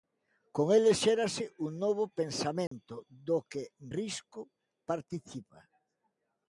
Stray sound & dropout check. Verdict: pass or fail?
fail